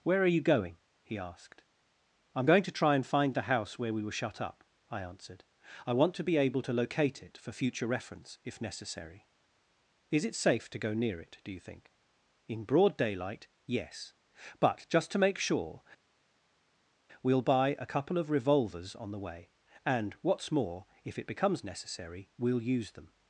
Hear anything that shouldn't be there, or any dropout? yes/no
no